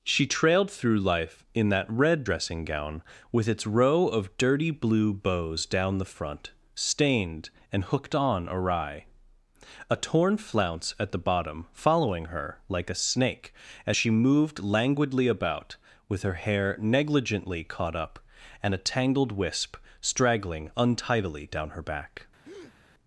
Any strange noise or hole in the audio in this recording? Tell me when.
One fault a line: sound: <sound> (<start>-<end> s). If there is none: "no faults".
sound: breath (22.4-22.8 s)